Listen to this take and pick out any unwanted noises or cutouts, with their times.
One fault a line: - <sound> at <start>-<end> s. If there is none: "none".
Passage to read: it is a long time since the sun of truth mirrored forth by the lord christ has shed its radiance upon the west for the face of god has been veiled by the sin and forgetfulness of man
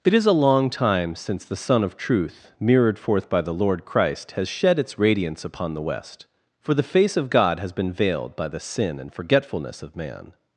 none